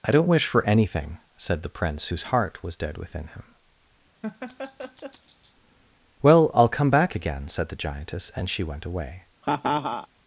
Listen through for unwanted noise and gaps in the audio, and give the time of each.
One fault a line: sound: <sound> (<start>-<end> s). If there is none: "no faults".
sound: laugh (4.2-5.6 s)
sound: laugh (9.4-10.1 s)